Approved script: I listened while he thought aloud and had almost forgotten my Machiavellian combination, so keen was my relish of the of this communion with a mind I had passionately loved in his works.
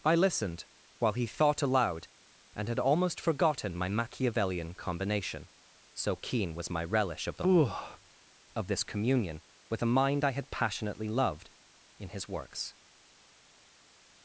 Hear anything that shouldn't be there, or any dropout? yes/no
no